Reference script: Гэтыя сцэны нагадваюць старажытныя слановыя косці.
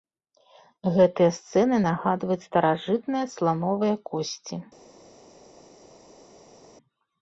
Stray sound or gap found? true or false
false